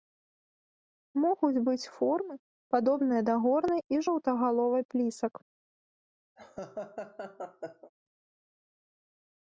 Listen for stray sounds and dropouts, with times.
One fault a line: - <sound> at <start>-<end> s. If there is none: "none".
- laugh at 6.4-7.9 s